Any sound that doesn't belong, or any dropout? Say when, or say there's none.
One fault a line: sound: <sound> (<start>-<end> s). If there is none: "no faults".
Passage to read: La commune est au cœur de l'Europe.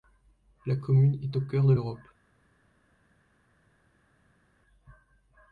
no faults